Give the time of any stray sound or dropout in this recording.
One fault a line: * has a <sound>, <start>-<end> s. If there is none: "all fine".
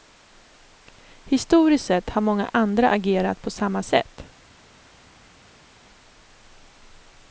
all fine